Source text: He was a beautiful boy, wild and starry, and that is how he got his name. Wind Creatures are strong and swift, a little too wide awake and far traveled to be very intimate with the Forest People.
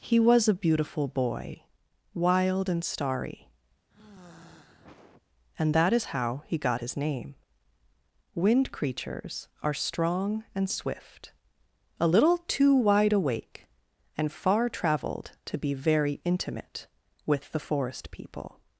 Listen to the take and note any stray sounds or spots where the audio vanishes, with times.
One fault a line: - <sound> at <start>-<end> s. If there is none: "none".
- sigh at 3.9-5.2 s